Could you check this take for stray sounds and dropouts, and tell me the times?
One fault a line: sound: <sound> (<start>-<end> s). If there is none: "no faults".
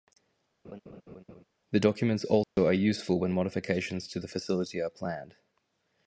sound: laugh (0.6-1.4 s)
sound: dropout (2.4-2.6 s)